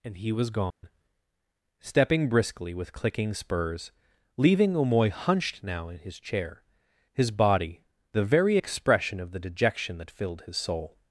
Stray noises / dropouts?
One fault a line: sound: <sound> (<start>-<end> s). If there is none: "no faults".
sound: dropout (0.7-0.8 s)